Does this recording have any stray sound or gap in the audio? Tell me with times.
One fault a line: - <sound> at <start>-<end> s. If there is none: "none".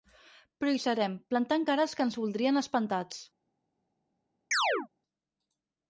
- chirp at 4.5-4.9 s